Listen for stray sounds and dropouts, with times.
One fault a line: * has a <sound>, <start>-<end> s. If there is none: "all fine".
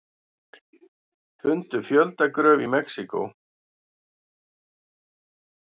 all fine